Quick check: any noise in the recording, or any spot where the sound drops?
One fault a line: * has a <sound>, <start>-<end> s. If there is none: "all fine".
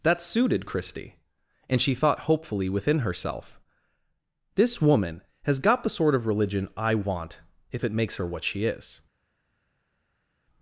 all fine